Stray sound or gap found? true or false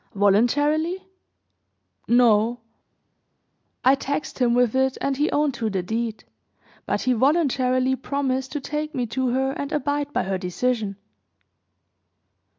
false